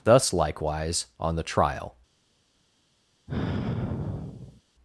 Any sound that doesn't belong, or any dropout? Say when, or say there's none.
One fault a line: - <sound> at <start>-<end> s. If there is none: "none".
- sigh at 3.3-4.6 s